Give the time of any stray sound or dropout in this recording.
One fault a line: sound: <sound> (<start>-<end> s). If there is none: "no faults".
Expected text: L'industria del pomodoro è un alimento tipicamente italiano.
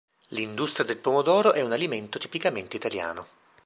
no faults